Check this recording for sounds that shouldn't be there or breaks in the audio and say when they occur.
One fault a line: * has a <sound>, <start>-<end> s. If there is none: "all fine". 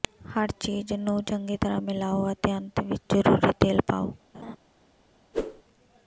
* has a laugh, 4.3-4.6 s
* has a whoosh, 5.3-5.6 s